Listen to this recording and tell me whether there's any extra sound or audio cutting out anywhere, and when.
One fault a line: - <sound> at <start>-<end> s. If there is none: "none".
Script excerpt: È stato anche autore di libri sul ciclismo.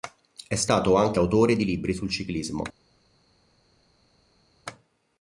none